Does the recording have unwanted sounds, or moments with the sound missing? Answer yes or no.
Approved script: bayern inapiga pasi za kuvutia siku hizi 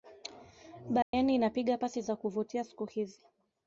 yes